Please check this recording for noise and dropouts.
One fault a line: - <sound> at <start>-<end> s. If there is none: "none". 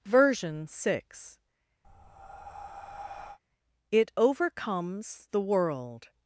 - breath at 1.8-3.4 s